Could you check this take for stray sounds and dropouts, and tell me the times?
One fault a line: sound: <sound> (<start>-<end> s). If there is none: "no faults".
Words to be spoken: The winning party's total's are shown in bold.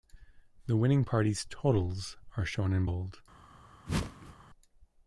sound: whoosh (3.9-4.4 s)